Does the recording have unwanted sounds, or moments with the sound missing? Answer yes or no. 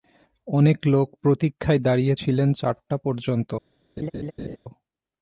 yes